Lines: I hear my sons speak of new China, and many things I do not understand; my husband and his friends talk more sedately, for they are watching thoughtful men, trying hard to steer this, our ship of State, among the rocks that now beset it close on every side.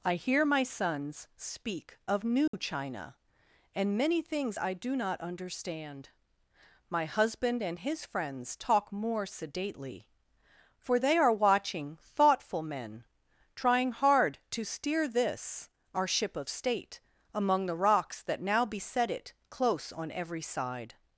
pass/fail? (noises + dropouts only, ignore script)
fail